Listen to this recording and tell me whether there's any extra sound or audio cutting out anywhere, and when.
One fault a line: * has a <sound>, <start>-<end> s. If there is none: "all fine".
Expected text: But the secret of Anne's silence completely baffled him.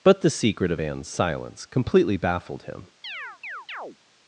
* has a chirp, 3.0-4.0 s